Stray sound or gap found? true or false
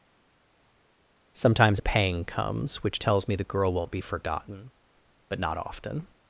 false